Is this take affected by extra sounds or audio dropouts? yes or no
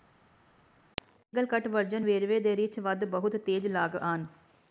no